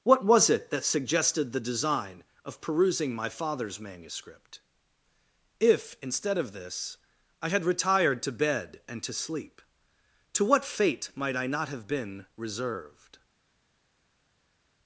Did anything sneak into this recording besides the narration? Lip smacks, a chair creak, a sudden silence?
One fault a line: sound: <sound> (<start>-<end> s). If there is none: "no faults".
no faults